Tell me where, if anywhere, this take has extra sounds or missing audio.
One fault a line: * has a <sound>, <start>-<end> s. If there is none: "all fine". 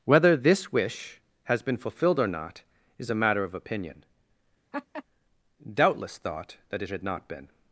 * has a laugh, 4.7-5.0 s